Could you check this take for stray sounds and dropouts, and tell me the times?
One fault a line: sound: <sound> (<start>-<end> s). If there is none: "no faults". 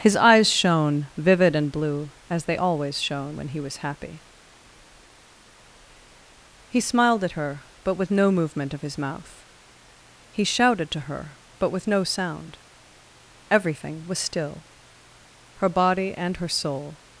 no faults